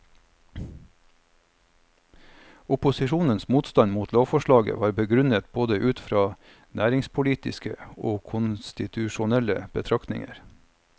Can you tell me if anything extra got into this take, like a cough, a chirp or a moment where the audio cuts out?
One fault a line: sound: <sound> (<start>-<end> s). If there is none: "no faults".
no faults